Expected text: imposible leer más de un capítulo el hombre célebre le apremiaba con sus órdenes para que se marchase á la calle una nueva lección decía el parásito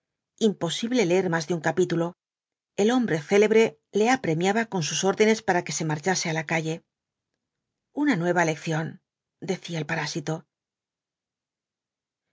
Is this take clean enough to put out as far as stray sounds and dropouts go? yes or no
yes